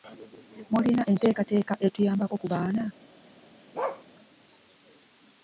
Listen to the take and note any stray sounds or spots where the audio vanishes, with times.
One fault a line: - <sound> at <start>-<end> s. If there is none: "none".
- bark at 3.7-4.0 s